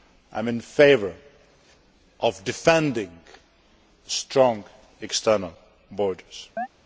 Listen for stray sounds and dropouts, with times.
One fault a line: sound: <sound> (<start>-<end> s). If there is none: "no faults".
sound: chirp (6.6-6.7 s)